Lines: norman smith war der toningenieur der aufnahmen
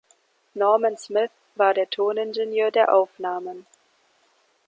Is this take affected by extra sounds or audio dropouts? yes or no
no